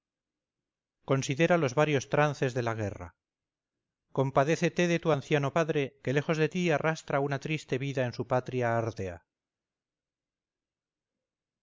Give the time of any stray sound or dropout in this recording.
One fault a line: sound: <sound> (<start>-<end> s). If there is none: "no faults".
no faults